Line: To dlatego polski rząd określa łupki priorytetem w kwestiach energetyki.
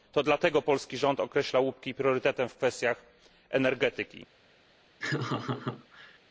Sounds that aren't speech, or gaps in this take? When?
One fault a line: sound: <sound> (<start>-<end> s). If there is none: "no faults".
sound: laugh (5.0-6.2 s)